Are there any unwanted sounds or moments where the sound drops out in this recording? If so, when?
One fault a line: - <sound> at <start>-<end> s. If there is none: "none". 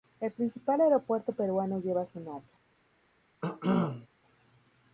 - cough at 3.4-4.1 s